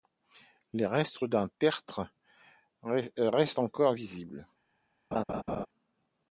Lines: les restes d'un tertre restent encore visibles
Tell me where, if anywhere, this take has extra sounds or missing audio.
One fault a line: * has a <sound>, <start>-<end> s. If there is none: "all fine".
* has a laugh, 5.1-5.7 s